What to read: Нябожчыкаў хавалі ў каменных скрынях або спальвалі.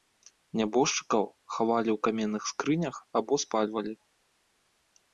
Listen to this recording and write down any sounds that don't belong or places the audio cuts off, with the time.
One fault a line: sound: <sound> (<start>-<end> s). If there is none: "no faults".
no faults